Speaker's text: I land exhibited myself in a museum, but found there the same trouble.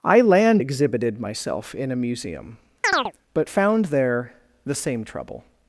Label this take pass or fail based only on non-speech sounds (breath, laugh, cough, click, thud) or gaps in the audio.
fail